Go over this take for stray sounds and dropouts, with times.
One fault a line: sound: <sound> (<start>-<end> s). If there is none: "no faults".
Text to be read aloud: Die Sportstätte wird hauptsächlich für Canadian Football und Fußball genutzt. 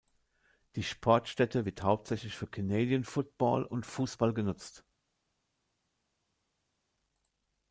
no faults